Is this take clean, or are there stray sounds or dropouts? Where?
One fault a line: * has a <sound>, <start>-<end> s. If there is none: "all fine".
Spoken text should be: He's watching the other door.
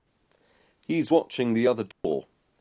* has a dropout, 1.9-2.0 s